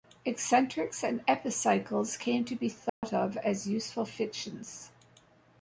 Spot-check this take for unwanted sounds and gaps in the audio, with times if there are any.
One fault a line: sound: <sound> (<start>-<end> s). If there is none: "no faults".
sound: dropout (2.9-3.0 s)